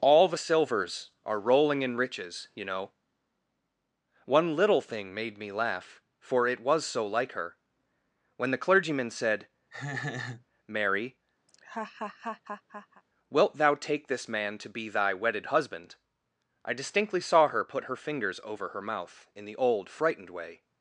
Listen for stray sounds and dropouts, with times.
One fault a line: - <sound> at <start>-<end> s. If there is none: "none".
- laugh at 9.7-10.5 s
- laugh at 11.5-13.0 s